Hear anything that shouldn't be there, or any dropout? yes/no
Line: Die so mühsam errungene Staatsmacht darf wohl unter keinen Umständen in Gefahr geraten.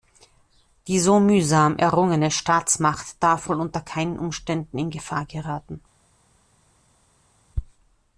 no